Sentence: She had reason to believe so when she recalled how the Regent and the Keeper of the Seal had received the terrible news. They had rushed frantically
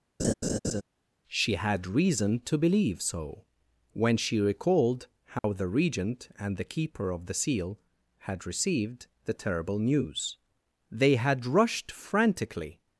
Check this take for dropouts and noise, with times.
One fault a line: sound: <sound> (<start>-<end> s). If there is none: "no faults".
sound: laugh (0.2-0.8 s)
sound: dropout (5.4-5.4 s)